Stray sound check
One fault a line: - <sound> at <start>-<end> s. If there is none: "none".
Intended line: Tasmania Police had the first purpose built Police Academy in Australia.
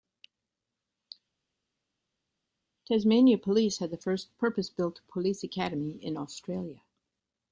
none